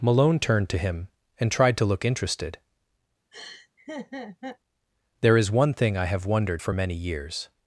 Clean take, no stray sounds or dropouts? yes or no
no